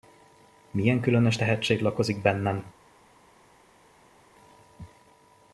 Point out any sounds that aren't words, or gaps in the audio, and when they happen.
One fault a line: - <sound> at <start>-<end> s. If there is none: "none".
none